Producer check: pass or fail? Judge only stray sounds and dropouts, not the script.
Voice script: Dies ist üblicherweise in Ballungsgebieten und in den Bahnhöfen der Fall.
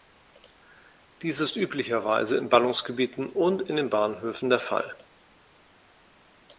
pass